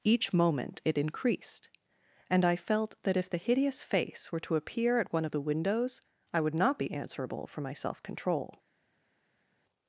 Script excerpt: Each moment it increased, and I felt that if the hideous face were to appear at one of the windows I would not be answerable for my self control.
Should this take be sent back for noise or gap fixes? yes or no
no